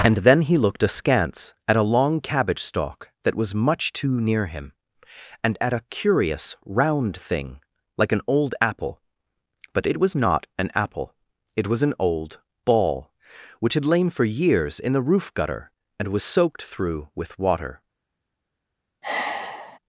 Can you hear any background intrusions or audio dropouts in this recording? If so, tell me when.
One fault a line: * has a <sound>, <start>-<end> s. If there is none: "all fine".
* has a sigh, 19.0-19.8 s